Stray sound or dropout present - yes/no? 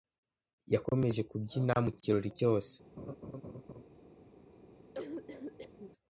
yes